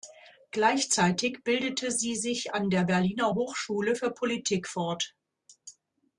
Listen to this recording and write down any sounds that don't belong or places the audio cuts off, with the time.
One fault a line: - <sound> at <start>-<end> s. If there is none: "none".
none